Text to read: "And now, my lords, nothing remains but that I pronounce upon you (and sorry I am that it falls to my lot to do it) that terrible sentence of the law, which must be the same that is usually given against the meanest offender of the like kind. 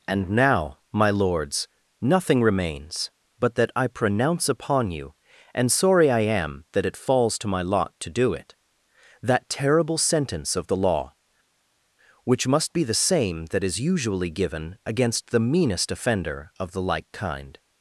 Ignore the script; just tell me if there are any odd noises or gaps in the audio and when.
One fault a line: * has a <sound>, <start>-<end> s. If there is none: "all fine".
all fine